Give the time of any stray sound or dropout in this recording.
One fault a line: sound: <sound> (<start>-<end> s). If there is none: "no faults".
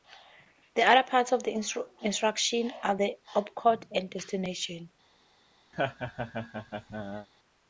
sound: laugh (5.7-7.3 s)